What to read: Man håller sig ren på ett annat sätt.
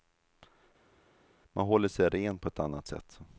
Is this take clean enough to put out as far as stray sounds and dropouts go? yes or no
yes